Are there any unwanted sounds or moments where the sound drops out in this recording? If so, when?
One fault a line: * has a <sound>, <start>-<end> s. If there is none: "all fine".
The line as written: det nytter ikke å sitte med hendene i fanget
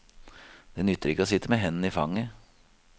all fine